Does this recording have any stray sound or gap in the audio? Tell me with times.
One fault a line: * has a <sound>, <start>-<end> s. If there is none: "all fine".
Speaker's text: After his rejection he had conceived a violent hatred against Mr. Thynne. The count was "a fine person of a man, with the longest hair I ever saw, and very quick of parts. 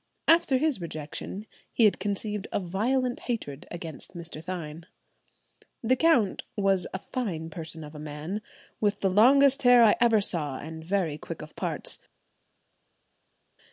all fine